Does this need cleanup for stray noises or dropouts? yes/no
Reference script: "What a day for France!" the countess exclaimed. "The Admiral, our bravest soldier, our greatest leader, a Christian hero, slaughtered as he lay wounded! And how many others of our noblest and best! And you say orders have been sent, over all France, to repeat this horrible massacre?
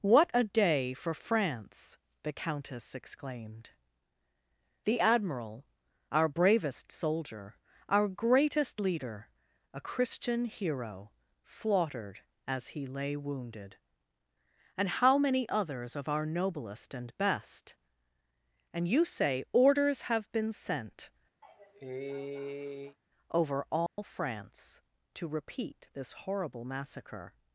yes